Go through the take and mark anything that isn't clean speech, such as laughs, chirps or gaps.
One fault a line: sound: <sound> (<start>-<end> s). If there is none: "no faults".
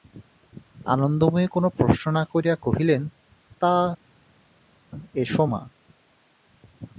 no faults